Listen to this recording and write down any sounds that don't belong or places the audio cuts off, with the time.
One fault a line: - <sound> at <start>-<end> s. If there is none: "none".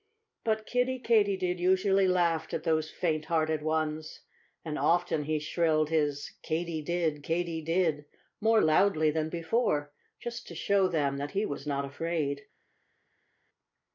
none